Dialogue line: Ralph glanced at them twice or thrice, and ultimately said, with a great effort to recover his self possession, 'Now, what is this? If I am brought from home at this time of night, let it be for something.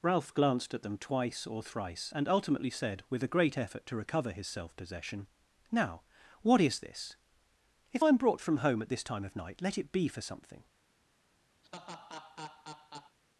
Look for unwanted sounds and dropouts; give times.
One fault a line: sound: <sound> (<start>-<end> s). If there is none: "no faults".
sound: laugh (11.6-13.2 s)